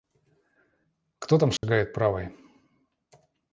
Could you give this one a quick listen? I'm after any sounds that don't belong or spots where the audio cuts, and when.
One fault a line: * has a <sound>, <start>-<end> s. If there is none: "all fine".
* has a dropout, 1.6-1.6 s